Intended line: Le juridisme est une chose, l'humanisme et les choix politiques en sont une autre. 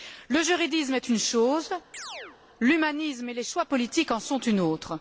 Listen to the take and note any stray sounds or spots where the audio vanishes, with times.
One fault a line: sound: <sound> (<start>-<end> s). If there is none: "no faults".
sound: chirp (1.9-2.4 s)